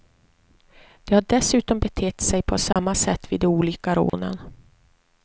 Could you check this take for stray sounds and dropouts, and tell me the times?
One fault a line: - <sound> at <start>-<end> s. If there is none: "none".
- dropout at 2.7-2.8 s
- dropout at 4.1-4.1 s